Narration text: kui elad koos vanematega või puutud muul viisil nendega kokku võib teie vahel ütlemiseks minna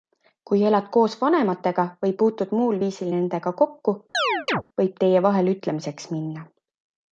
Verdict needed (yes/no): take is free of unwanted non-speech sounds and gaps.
no